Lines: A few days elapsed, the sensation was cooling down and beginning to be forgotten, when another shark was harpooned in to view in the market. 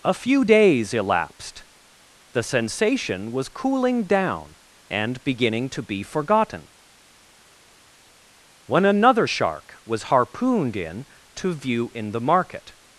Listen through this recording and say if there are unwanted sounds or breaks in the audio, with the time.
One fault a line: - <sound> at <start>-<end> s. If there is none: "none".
none